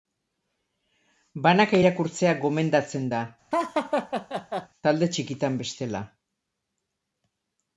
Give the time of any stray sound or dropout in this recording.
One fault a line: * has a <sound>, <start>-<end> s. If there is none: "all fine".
* has a laugh, 3.5-4.7 s